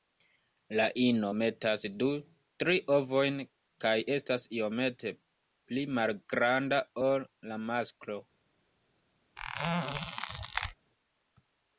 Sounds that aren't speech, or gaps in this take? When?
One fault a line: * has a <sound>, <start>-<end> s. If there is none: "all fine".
* has a squeak, 9.4-10.7 s